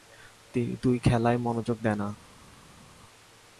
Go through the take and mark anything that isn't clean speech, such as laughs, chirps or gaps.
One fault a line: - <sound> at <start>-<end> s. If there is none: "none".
none